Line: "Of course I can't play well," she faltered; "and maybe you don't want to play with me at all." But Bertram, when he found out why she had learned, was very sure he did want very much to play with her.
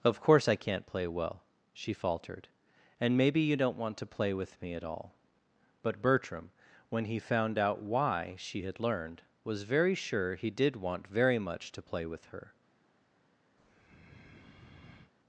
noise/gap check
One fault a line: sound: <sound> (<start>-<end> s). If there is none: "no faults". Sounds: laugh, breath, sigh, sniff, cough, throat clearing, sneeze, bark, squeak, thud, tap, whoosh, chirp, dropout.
sound: breath (13.6-15.1 s)